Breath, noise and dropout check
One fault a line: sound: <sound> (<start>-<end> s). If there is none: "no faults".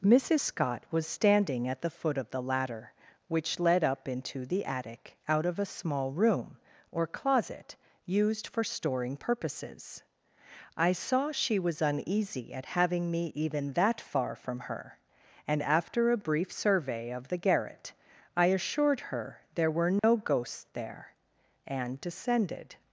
sound: dropout (20.0-20.0 s)